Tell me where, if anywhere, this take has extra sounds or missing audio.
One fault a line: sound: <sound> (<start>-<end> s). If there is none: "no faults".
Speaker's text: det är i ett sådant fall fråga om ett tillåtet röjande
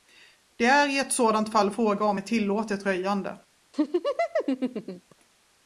sound: laugh (3.7-5.2 s)